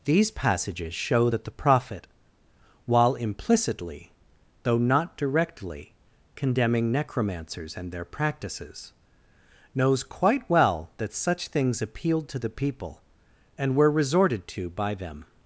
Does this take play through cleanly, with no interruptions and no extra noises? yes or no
yes